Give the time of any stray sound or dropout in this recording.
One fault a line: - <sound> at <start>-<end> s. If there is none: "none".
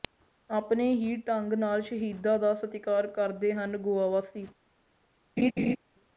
- laugh at 5.4-5.8 s